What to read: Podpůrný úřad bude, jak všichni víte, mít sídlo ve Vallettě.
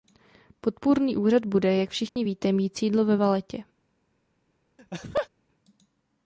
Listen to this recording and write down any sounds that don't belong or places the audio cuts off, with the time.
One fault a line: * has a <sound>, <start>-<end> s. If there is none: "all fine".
* has a dropout, 2.1-2.2 s
* has a laugh, 4.8-5.3 s